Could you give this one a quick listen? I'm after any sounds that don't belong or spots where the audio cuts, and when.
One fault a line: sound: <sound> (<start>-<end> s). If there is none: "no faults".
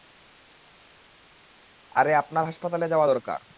no faults